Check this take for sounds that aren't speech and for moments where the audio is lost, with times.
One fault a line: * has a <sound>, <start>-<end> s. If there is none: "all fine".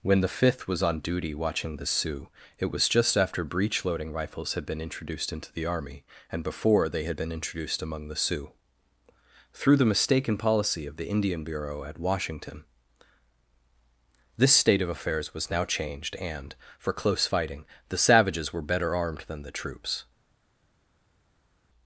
all fine